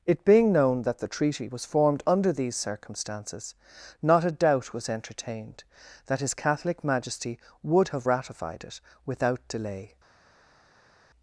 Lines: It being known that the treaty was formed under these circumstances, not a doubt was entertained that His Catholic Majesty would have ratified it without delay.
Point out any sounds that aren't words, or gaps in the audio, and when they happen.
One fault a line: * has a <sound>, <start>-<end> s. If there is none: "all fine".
all fine